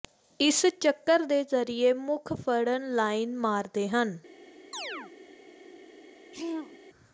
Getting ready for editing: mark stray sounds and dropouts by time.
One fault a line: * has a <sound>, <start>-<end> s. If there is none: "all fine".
* has a chirp, 4.7-5.1 s
* has a throat clearing, 6.3-6.8 s